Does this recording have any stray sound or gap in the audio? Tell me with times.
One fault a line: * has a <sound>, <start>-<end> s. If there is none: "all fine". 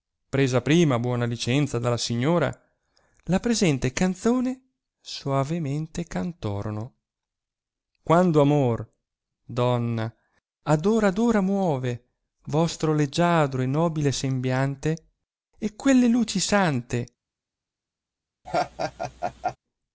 * has a laugh, 18.4-19.6 s